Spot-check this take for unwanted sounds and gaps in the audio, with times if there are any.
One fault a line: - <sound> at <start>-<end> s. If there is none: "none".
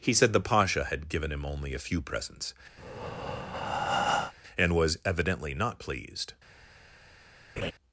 - breath at 2.8-4.3 s
- laugh at 7.6-7.7 s